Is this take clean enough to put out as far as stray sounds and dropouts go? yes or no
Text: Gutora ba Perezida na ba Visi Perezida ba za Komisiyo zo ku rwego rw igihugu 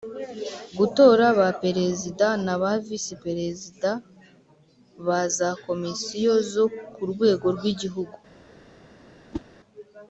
no